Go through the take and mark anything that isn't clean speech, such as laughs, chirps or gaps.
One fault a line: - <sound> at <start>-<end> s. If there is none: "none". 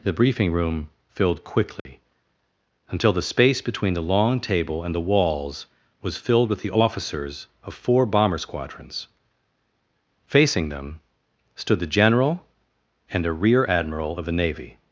- dropout at 1.8-1.9 s